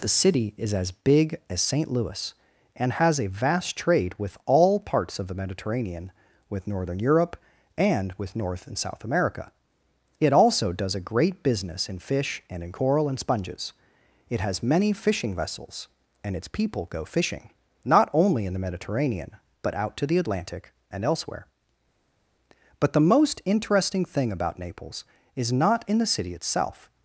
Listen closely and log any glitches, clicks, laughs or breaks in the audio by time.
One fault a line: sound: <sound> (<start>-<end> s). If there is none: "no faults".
no faults